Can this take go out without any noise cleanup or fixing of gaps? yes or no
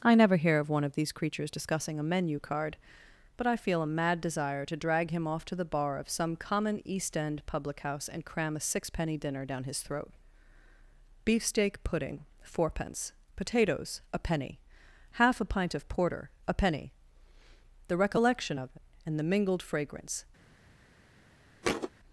no